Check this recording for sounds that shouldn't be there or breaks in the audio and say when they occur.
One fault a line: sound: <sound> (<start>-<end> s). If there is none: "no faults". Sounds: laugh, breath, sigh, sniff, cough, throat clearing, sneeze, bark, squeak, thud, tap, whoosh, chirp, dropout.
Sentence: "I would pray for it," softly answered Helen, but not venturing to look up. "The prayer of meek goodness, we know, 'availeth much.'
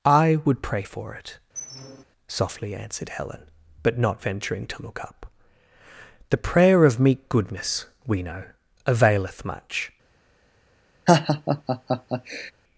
sound: squeak (1.5-2.0 s)
sound: laugh (11.1-12.5 s)